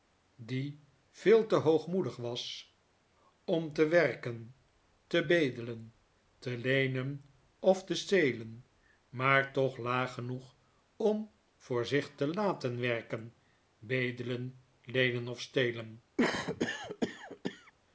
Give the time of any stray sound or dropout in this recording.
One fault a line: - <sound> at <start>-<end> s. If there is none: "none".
- cough at 16.2-17.7 s